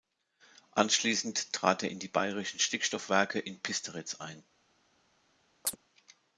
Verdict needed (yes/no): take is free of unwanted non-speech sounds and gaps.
no